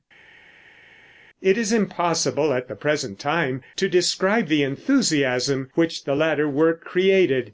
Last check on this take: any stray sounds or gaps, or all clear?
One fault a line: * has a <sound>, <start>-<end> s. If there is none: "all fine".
all fine